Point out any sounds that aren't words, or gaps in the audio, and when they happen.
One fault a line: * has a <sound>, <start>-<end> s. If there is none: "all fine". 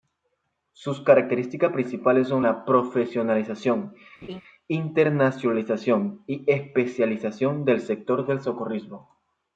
* has a laugh, 4.2-4.4 s